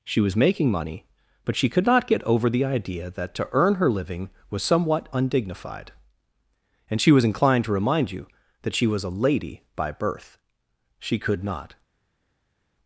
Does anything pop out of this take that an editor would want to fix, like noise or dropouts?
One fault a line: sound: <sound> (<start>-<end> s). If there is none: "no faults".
no faults